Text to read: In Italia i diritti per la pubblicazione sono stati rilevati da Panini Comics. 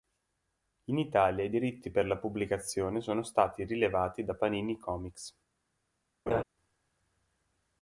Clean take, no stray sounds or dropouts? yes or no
no